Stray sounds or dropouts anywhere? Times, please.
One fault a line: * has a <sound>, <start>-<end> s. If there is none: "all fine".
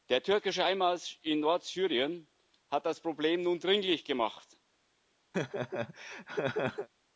* has a laugh, 5.3-6.9 s